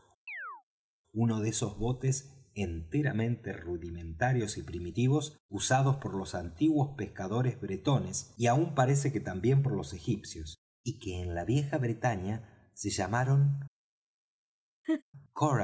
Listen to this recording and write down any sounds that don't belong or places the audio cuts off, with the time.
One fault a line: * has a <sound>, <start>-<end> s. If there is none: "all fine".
* has a chirp, 0.3-0.6 s
* has a laugh, 14.8-15.0 s